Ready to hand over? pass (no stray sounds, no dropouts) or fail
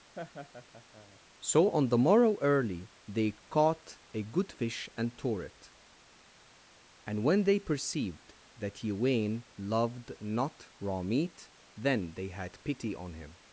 fail